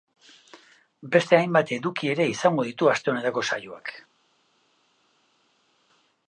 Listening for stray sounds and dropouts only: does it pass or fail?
pass